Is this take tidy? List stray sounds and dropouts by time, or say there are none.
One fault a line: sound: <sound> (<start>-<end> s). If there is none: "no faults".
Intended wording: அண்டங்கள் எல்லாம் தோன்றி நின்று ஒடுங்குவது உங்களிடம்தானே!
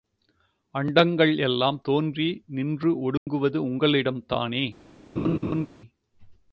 sound: dropout (3.2-3.3 s)
sound: laugh (5.2-5.7 s)